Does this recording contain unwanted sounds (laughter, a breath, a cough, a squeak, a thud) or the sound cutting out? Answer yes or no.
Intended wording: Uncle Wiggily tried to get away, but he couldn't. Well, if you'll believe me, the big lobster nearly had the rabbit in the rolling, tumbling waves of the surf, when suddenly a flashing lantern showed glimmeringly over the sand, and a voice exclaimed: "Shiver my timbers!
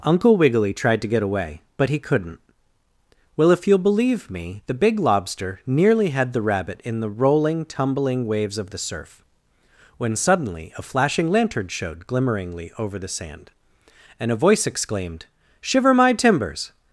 no